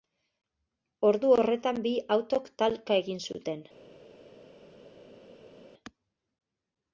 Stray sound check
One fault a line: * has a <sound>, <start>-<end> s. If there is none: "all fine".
all fine